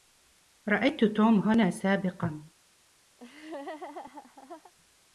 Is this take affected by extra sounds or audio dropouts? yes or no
yes